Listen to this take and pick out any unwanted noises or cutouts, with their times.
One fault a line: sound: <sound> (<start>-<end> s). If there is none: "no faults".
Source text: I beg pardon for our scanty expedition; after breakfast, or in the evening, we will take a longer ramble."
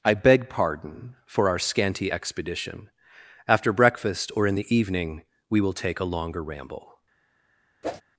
sound: whoosh (7.8-8.0 s)